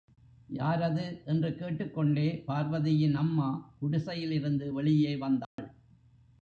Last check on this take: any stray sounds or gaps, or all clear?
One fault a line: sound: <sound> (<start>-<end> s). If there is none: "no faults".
sound: dropout (5.4-5.6 s)